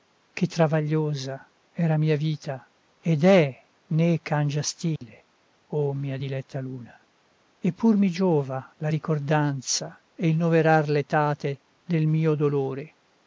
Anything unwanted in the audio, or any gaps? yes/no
yes